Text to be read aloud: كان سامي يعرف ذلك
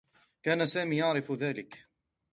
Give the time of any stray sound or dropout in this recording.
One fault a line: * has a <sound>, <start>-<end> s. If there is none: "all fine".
all fine